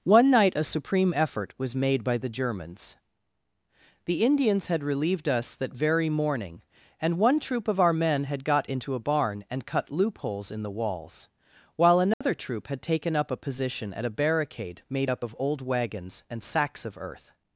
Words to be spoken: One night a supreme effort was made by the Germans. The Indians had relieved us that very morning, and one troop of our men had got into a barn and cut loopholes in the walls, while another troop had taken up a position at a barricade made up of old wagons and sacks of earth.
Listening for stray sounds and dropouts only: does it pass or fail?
fail